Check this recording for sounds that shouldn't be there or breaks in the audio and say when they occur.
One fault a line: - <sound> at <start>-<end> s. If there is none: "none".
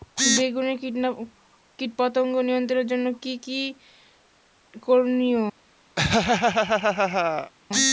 - laugh at 6.0-7.5 s